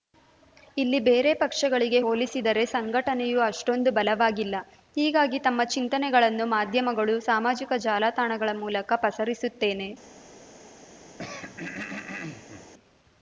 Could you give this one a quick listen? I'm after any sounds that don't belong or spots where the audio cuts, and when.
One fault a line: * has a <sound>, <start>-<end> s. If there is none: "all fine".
* has a throat clearing, 11.2-12.7 s